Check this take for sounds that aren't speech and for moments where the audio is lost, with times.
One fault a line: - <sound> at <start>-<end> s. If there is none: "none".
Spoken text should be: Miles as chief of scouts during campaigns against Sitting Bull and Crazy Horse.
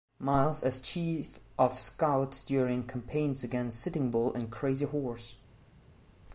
none